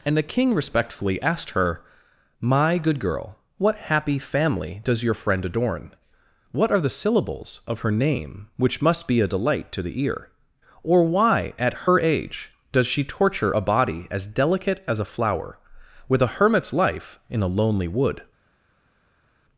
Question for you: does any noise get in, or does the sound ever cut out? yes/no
no